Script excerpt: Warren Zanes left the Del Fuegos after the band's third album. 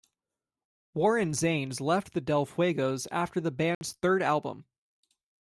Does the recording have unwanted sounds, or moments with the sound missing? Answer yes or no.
yes